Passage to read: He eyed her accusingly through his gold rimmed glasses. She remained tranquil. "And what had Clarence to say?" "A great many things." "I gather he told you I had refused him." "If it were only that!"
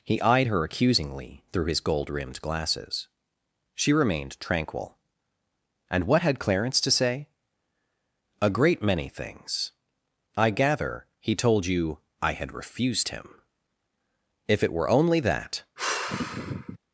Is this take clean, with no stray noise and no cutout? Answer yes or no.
no